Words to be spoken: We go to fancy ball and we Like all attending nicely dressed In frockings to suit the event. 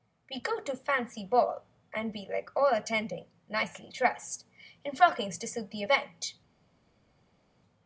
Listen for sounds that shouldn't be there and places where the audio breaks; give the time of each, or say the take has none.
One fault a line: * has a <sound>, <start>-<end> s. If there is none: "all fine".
all fine